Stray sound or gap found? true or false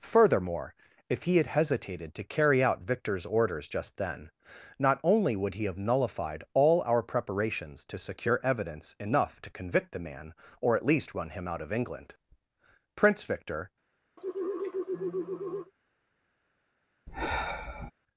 true